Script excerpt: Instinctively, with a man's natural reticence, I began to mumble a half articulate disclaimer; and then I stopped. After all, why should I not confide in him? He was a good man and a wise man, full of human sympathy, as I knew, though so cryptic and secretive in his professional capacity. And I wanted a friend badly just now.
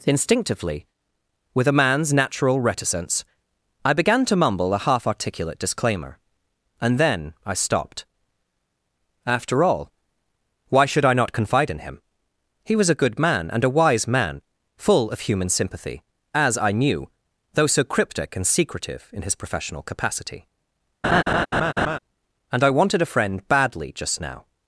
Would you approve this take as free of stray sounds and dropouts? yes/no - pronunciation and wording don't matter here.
no